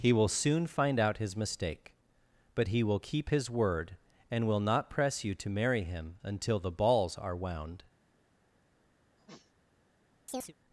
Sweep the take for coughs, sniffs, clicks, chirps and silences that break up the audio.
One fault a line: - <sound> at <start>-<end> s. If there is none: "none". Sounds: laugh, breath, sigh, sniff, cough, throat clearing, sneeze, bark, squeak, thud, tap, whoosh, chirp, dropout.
- sniff at 9.2-9.5 s
- chirp at 10.3-10.5 s